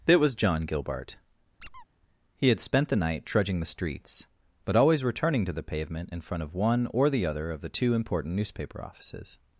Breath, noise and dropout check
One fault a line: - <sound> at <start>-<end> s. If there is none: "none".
- squeak at 1.6-1.9 s